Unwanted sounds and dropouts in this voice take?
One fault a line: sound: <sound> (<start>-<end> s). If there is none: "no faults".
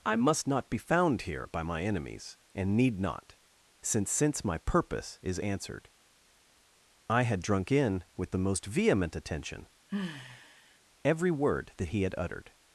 sound: sigh (9.9-10.8 s)